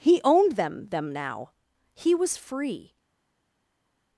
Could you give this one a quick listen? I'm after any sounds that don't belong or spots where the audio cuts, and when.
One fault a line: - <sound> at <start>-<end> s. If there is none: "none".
none